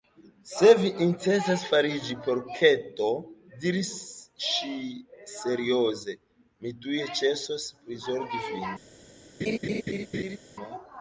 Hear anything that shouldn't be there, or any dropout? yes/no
yes